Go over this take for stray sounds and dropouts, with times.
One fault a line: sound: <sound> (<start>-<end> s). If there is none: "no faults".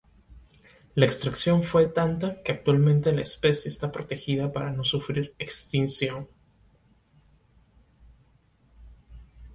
no faults